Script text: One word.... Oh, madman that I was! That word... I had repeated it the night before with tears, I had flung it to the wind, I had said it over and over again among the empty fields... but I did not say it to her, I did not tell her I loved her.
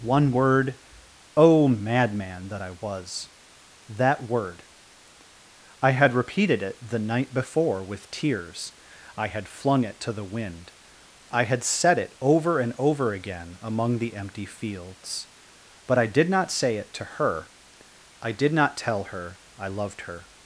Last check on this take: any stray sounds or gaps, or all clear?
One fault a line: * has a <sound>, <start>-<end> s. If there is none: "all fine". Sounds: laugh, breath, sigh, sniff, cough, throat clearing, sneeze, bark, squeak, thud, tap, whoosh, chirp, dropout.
all fine